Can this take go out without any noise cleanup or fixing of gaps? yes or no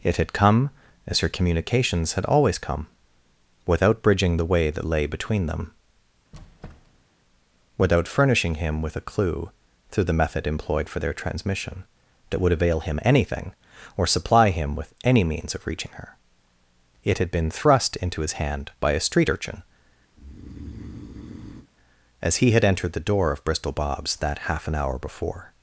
no